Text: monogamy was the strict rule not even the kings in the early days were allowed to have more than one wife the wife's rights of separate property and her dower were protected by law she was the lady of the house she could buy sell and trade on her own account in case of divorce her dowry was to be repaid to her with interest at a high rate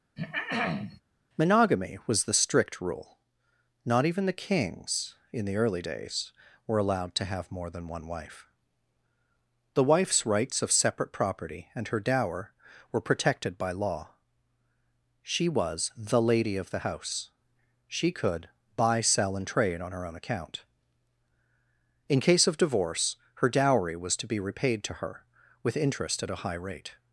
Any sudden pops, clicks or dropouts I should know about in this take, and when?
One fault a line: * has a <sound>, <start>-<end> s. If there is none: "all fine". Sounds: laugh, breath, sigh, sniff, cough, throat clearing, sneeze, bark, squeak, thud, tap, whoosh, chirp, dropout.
* has a throat clearing, 0.2-1.0 s